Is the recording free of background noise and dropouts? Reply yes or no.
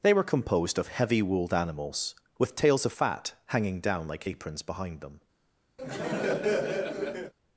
no